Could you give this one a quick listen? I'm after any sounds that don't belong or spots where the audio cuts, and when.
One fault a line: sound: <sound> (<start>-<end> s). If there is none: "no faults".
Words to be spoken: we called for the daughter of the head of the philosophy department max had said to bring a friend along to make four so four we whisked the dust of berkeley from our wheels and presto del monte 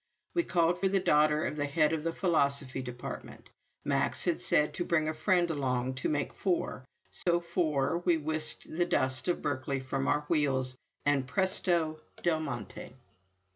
sound: dropout (7.2-7.3 s)